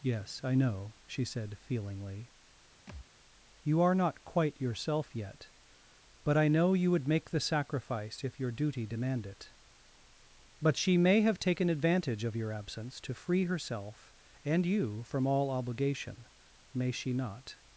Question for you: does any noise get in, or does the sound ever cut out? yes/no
yes